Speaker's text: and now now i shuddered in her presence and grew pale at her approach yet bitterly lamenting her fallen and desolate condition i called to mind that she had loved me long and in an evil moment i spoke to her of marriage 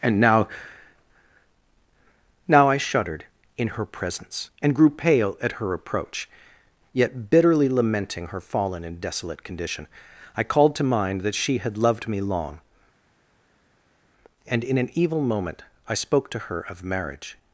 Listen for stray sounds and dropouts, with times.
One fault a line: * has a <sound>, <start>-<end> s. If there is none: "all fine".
all fine